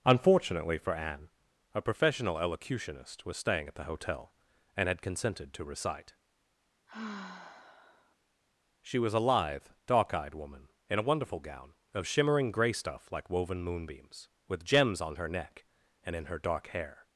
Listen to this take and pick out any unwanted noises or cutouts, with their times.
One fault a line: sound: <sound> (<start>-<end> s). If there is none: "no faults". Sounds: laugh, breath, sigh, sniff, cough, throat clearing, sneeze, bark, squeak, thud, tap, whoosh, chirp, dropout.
sound: sigh (6.9-8.2 s)